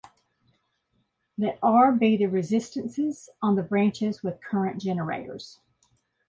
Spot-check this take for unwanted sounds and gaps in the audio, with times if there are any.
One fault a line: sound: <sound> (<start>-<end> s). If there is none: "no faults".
no faults